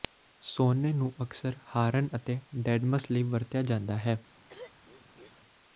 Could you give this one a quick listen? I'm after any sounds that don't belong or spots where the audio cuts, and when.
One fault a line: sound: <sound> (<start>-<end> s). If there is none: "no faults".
sound: throat clearing (4.5-5.4 s)